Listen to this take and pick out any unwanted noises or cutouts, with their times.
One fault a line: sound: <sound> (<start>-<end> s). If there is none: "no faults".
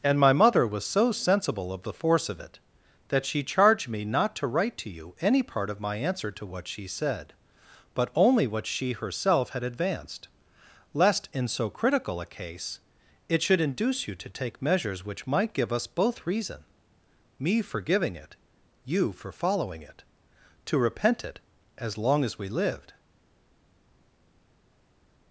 no faults